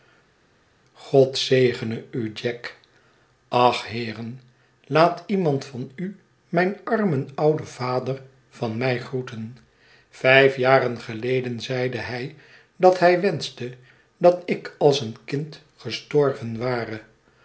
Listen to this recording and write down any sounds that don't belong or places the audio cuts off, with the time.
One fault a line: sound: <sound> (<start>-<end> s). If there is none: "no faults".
no faults